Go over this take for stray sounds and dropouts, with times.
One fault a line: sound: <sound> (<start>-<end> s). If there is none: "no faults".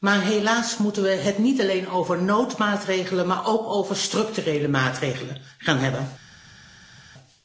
no faults